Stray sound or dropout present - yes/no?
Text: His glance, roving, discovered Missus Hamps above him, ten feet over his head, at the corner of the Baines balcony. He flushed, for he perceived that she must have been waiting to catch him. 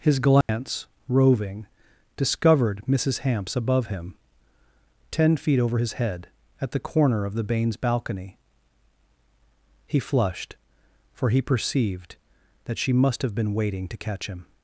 yes